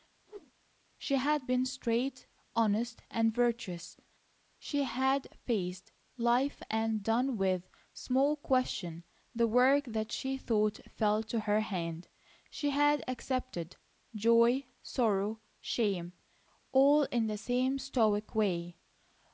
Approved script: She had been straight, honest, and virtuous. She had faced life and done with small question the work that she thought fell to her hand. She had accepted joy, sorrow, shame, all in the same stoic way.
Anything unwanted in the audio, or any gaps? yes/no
yes